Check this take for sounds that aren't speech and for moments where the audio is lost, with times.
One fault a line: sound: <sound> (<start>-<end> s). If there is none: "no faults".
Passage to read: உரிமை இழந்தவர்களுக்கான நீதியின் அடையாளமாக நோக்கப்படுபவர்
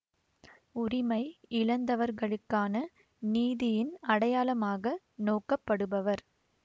no faults